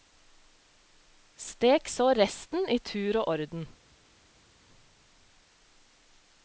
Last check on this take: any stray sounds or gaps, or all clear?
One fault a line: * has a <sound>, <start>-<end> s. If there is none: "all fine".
all fine